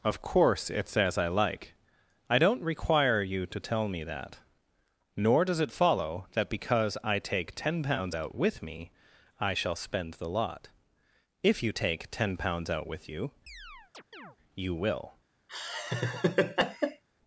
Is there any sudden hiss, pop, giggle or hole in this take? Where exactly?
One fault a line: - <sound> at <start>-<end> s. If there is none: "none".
- chirp at 13.5-14.4 s
- laugh at 15.5-17.0 s